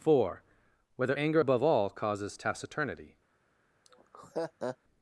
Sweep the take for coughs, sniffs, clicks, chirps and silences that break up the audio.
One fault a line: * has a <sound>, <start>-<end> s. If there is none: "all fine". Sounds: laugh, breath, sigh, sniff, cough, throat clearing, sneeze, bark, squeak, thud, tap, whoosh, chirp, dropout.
* has a laugh, 3.9-4.8 s